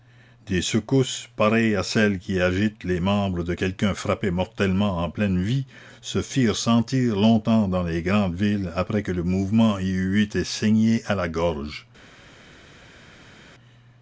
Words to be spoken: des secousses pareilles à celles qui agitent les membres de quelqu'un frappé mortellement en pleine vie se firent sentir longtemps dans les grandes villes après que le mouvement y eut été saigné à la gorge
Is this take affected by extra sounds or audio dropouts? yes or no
no